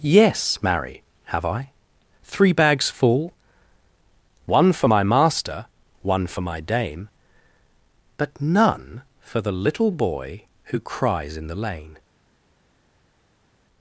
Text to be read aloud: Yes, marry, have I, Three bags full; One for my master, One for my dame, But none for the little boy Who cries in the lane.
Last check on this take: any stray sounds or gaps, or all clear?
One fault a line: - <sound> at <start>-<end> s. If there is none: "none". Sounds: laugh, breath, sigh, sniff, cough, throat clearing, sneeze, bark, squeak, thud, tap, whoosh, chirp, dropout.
none